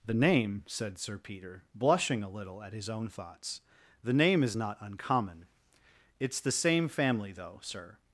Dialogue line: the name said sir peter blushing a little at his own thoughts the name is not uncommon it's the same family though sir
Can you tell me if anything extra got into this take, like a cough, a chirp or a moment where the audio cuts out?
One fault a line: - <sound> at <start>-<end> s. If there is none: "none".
none